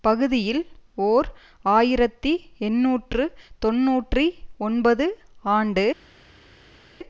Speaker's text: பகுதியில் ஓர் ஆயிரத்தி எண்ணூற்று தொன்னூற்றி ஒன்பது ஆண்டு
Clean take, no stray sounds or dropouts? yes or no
yes